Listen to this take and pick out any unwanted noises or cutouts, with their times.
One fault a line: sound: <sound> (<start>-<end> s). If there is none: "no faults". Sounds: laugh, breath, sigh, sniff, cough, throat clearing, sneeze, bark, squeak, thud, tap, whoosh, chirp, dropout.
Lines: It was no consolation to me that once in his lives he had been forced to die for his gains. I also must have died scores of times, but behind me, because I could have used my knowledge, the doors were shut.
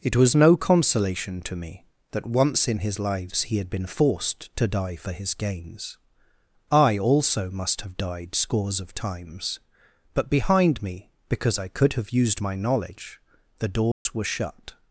sound: dropout (13.9-14.1 s)